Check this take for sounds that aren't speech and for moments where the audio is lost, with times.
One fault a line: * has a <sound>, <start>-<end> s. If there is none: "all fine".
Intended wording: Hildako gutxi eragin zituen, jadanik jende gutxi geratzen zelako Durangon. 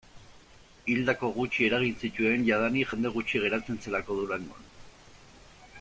all fine